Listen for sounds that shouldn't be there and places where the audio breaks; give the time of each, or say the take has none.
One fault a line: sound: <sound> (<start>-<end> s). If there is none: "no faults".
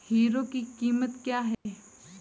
sound: dropout (1.5-1.7 s)